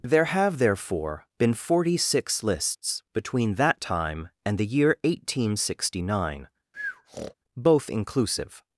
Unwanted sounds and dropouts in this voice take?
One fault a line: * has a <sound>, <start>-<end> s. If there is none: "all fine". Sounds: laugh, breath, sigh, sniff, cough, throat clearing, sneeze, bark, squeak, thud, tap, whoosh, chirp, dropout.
* has a breath, 6.7-7.3 s